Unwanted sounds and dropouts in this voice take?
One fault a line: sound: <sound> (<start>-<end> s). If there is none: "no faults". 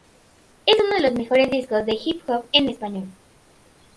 no faults